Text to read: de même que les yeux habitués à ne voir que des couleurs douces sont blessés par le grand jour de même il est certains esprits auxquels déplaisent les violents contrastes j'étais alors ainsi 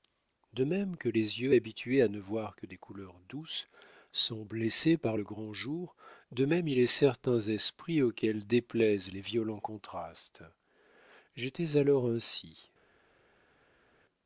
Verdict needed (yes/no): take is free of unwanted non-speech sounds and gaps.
yes